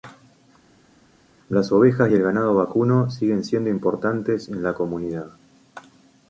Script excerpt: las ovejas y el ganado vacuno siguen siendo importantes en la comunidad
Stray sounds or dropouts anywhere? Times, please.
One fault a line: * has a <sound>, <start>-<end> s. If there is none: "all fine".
all fine